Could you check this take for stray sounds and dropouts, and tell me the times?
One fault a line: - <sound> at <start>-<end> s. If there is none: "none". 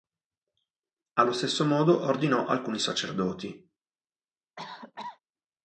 - cough at 4.6-5.2 s